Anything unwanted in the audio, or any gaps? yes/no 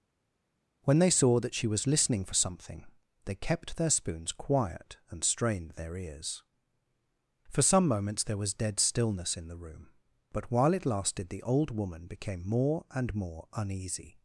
no